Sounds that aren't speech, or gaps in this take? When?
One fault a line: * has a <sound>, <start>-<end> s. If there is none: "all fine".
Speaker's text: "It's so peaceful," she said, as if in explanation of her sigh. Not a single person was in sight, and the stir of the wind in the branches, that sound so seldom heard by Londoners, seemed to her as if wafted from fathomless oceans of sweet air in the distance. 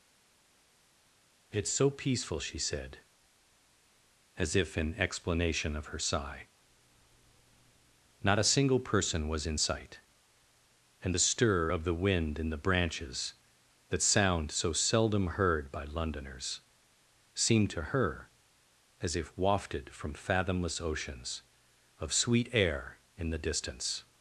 all fine